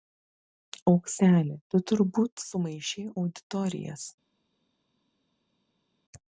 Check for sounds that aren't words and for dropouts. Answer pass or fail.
pass